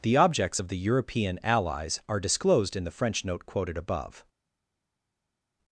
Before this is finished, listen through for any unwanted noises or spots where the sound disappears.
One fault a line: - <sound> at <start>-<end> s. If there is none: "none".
none